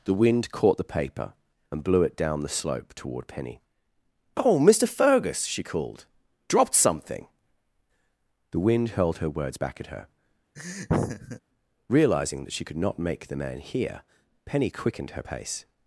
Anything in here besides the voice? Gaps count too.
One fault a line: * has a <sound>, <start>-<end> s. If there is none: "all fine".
* has a laugh, 10.6-11.4 s